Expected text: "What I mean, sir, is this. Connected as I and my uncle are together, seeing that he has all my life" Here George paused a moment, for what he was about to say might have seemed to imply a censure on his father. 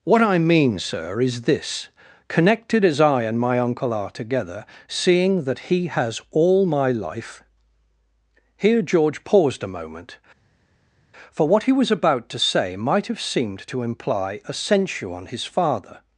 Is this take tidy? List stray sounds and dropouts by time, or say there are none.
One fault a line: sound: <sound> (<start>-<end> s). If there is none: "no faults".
no faults